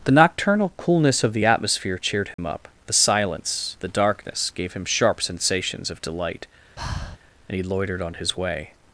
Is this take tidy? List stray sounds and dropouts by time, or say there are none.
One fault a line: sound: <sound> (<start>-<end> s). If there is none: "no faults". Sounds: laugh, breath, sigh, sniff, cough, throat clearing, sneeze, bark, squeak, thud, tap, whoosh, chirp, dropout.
sound: dropout (2.3-2.4 s)
sound: breath (6.8-7.2 s)